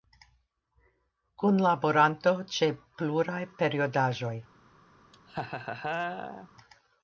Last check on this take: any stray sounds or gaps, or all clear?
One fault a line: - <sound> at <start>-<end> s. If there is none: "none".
- laugh at 5.1-6.5 s